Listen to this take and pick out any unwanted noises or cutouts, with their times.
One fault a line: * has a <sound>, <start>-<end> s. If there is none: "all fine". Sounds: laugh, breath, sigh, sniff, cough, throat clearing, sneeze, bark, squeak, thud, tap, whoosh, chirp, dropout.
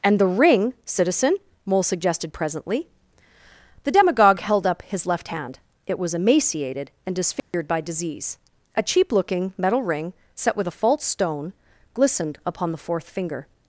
* has a dropout, 7.4-7.5 s